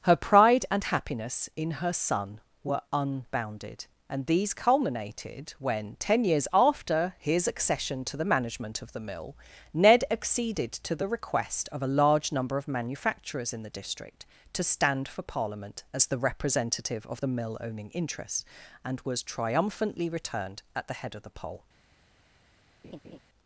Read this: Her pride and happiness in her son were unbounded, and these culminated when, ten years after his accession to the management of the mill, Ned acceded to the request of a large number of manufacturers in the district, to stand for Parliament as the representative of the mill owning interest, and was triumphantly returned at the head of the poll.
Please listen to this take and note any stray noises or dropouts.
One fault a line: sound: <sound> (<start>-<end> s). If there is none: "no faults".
sound: laugh (22.8-23.2 s)